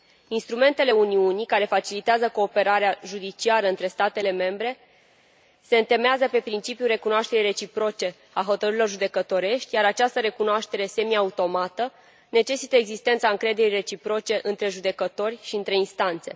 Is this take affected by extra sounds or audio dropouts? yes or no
no